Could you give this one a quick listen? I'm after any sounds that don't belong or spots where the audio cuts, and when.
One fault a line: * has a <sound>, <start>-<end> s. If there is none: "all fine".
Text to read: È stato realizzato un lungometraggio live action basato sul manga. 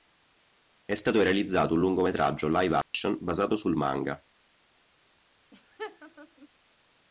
* has a dropout, 2.8-2.9 s
* has a laugh, 5.5-6.5 s